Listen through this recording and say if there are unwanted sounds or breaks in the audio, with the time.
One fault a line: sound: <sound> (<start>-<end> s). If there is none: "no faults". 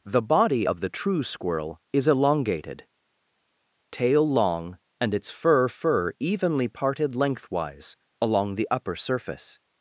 no faults